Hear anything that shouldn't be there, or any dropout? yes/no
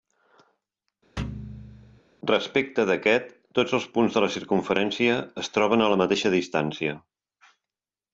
yes